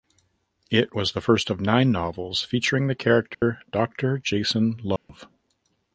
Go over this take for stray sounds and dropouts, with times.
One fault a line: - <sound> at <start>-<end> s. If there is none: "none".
- dropout at 3.3-3.4 s
- dropout at 5.0-5.1 s